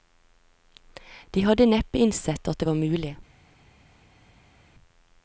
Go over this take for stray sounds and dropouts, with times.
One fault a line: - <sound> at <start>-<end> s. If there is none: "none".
none